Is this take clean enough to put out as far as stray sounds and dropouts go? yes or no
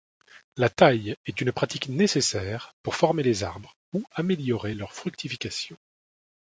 yes